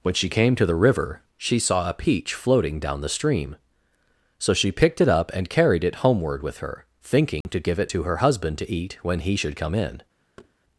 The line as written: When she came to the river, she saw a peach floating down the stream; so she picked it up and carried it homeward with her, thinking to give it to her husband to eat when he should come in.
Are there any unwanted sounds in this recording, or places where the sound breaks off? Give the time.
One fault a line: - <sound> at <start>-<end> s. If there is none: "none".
- dropout at 7.4-7.5 s
- thud at 10.4-10.5 s